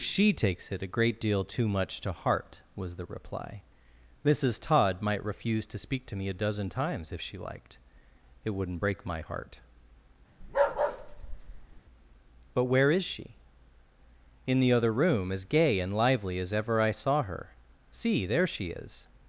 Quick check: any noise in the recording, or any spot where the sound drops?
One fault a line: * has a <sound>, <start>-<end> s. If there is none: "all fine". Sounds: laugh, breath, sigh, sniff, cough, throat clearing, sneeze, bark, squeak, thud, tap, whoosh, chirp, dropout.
* has a bark, 10.4-11.8 s